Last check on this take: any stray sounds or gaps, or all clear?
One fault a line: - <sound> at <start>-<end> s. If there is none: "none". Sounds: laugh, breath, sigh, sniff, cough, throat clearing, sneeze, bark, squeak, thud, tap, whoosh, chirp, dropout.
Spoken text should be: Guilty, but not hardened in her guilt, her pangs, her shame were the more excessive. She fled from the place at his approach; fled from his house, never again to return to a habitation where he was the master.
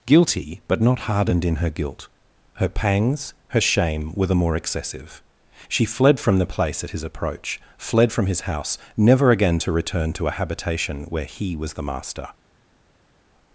none